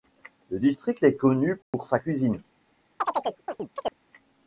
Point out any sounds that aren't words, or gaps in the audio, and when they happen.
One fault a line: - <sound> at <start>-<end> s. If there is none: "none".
- dropout at 1.6-1.7 s
- chirp at 3.0-3.9 s